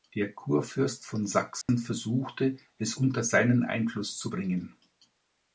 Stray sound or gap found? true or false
true